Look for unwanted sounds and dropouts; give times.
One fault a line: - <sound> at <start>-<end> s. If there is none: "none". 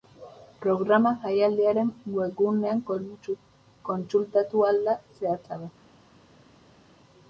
none